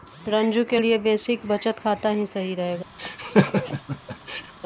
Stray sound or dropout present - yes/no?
yes